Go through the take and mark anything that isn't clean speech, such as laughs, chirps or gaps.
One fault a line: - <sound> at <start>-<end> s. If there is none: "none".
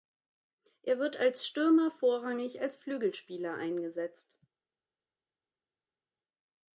none